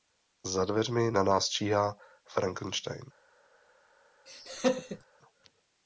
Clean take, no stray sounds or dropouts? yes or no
no